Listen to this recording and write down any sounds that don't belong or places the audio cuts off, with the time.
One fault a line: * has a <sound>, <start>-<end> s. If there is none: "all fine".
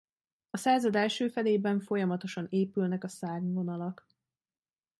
all fine